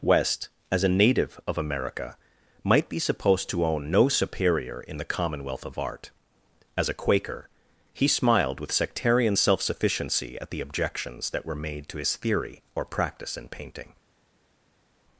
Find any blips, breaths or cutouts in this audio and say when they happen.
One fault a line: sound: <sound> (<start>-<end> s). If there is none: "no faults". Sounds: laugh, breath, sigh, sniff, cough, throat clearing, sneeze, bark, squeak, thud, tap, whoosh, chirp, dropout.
no faults